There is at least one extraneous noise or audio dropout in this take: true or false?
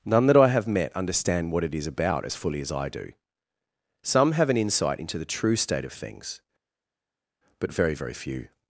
false